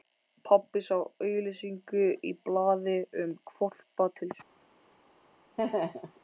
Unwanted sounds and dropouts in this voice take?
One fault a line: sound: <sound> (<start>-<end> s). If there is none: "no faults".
sound: laugh (5.6-6.2 s)